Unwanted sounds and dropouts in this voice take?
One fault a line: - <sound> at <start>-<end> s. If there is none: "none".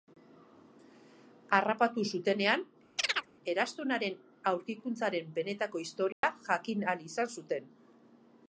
- chirp at 3.0-3.3 s
- dropout at 6.1-6.2 s